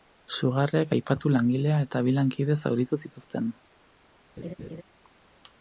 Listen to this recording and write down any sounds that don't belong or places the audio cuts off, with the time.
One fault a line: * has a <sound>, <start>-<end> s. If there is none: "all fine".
* has a laugh, 4.4-4.8 s